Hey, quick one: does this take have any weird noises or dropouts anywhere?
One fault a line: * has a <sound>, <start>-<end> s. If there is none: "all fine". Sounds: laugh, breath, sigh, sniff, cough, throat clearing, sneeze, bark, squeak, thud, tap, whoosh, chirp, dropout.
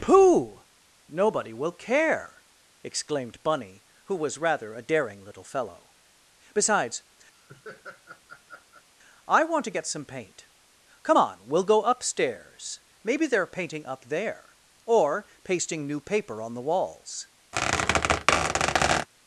* has a laugh, 7.3-8.9 s
* has a squeak, 17.5-19.1 s